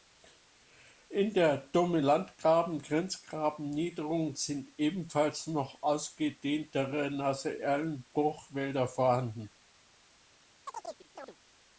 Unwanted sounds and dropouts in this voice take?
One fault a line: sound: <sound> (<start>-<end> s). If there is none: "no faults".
sound: chirp (10.7-11.4 s)